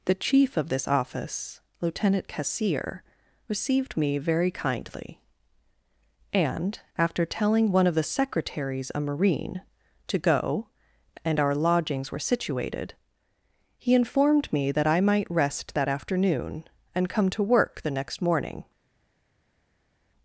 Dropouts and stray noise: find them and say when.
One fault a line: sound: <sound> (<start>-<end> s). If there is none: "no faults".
no faults